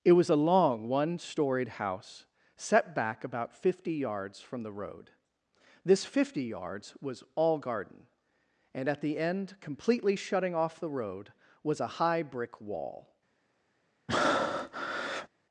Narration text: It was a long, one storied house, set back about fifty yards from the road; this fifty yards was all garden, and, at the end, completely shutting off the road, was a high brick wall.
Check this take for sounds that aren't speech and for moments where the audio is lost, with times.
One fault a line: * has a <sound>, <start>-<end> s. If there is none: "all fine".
* has a breath, 14.1-15.3 s